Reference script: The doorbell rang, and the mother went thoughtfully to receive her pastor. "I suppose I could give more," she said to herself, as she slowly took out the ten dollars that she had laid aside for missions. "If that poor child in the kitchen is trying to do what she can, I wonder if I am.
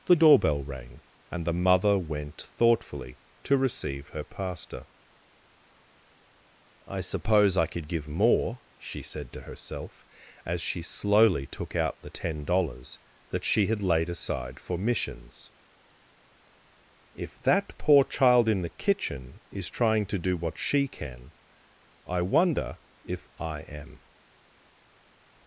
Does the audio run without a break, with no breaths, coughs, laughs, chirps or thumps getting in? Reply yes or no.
yes